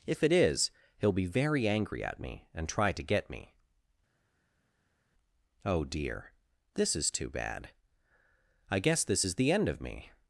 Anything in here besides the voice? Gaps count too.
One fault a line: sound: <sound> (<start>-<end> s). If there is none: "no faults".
no faults